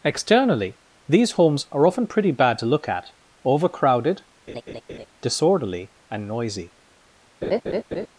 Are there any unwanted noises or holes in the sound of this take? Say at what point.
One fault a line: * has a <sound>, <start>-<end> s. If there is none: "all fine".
* has a laugh, 4.5-5.1 s
* has a laugh, 7.4-8.1 s